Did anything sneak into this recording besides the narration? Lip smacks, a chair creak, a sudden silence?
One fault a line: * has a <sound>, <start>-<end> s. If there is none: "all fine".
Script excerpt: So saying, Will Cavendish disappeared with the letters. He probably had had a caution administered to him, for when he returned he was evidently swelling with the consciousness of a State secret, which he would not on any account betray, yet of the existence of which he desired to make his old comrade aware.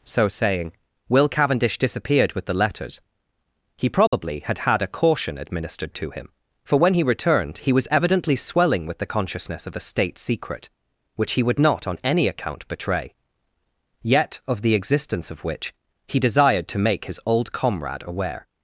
* has a dropout, 4.1-4.1 s